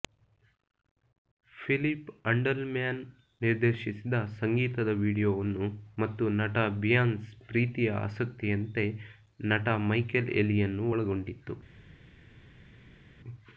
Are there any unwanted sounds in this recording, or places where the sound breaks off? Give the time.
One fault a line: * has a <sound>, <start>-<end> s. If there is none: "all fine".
all fine